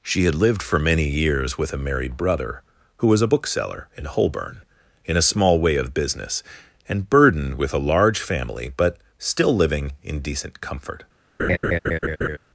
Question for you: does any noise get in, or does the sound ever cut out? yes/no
yes